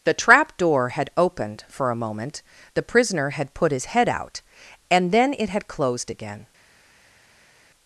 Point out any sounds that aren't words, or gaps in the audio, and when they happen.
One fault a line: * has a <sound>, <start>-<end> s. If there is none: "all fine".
all fine